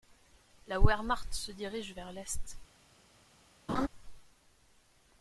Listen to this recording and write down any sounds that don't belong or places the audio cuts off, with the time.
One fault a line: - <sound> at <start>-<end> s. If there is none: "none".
- laugh at 3.7-3.9 s